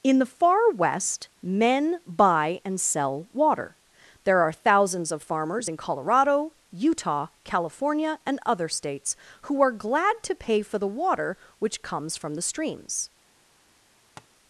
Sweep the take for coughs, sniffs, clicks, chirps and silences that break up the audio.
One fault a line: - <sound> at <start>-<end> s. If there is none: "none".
- tap at 14.2-14.3 s